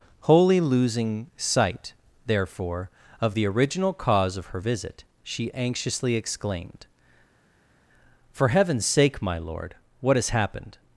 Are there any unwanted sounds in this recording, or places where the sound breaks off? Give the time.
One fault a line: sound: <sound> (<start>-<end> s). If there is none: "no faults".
no faults